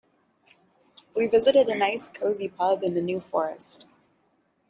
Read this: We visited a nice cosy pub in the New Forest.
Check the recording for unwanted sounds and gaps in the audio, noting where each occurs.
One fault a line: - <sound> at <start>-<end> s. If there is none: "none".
none